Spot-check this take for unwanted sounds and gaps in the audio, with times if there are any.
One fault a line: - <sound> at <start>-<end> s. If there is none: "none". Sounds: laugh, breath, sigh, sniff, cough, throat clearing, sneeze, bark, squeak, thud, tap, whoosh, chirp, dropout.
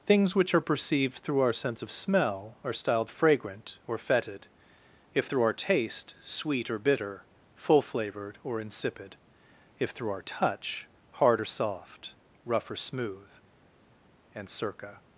none